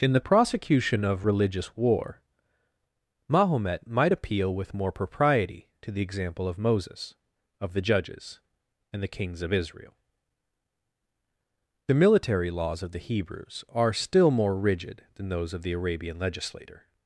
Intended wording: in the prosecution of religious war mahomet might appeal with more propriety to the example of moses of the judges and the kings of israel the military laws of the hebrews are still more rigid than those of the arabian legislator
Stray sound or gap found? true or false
false